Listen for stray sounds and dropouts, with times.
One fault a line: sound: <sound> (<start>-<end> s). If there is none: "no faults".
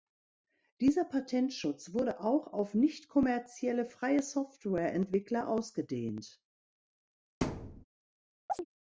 sound: thud (7.4-7.8 s)
sound: chirp (8.5-8.6 s)